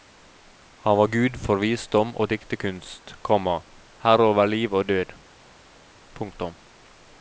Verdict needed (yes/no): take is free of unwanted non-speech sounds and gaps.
yes